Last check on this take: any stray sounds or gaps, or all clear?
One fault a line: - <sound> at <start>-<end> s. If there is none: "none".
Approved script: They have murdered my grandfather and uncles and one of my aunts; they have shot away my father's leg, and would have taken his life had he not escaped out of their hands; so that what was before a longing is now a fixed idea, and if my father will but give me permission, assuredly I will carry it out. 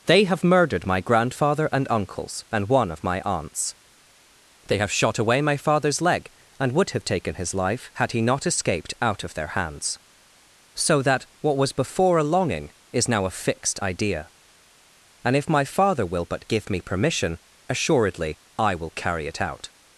none